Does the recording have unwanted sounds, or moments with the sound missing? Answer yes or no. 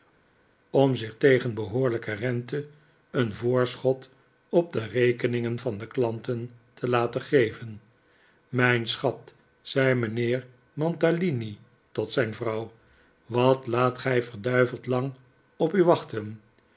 no